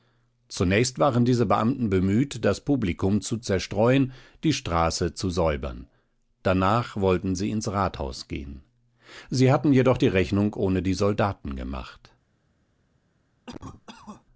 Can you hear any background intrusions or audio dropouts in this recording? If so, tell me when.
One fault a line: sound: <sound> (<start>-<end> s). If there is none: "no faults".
sound: cough (13.5-14.2 s)